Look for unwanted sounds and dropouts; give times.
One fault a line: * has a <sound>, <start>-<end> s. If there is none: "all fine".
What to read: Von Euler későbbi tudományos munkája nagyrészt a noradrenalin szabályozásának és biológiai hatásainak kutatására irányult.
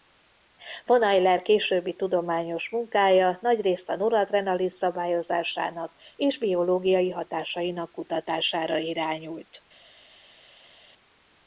all fine